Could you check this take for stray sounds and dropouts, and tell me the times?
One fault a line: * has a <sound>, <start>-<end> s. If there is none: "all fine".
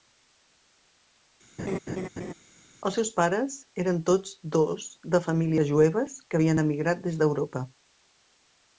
* has a laugh, 1.6-2.3 s